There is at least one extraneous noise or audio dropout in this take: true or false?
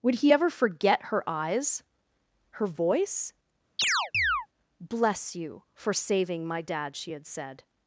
true